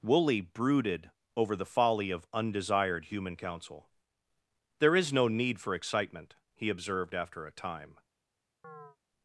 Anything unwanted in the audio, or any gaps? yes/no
yes